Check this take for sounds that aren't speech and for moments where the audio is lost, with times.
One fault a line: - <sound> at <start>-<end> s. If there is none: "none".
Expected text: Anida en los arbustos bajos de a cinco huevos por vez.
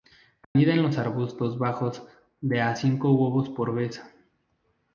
- dropout at 0.4-0.6 s